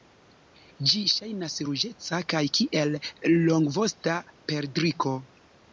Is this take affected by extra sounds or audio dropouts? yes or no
no